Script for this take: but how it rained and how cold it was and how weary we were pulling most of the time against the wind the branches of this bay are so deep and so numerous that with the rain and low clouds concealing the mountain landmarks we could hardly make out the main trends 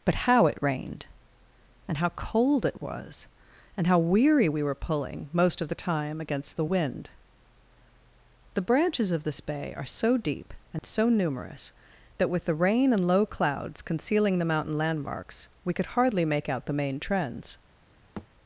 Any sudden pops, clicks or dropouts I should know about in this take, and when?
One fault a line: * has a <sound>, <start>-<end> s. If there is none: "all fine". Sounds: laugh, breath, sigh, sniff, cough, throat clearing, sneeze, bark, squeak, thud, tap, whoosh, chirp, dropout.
* has a dropout, 10.8-10.8 s
* has a thud, 18.2-18.3 s